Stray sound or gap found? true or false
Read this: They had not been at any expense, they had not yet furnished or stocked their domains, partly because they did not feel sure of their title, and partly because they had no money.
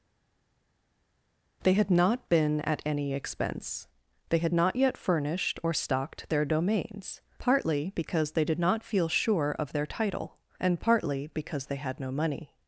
false